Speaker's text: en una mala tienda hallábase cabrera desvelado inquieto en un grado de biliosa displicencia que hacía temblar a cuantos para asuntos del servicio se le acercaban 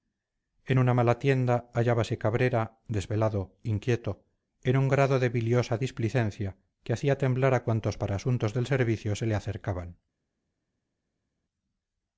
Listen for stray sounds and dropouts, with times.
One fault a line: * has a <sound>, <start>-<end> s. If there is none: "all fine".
all fine